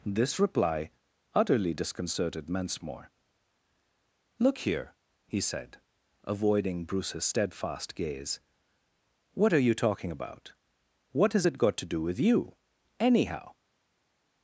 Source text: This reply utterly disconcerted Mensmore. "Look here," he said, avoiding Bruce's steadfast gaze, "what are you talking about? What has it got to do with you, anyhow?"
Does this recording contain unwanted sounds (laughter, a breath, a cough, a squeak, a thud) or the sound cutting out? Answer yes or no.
no